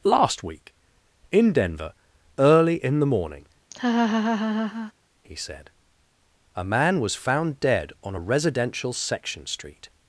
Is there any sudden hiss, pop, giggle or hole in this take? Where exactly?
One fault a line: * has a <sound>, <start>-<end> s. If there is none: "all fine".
* has a laugh, 3.7-4.9 s